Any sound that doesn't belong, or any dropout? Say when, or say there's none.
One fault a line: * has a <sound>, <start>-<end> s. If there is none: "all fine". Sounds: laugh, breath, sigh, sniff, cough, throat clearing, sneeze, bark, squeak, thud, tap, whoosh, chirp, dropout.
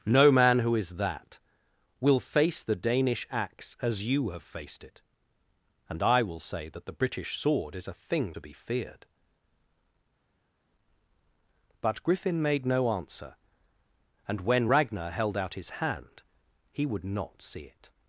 all fine